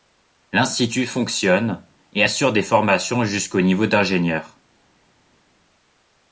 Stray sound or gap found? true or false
false